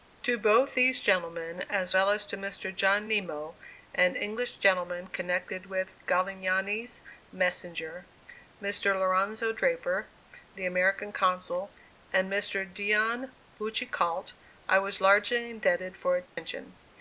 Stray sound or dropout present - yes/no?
yes